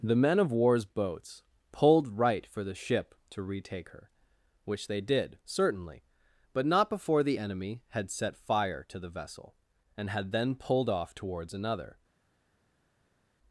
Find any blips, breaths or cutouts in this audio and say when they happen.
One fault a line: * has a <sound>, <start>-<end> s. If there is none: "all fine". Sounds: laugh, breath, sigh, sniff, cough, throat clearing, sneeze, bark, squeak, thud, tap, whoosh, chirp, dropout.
all fine